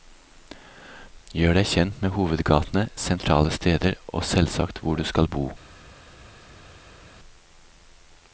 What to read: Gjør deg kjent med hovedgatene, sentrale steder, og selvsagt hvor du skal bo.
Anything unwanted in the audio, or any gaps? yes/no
no